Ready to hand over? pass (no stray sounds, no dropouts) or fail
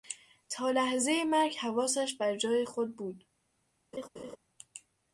fail